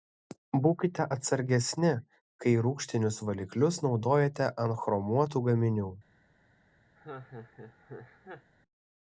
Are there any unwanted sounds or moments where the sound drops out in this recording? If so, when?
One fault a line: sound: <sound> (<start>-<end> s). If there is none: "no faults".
sound: laugh (7.0-8.5 s)